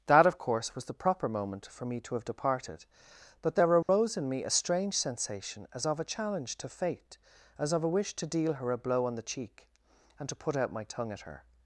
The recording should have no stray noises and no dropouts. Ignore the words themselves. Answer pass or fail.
fail